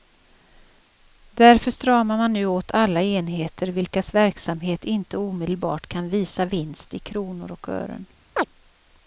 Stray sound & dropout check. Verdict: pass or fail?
fail